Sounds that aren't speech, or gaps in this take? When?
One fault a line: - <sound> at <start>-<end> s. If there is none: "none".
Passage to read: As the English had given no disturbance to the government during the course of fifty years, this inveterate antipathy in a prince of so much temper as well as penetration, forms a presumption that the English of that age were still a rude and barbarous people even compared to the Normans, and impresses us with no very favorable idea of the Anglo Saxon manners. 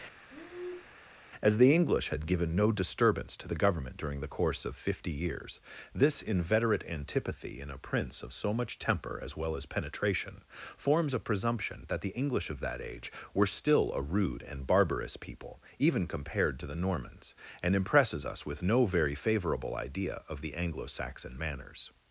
- breath at 0.3-1.0 s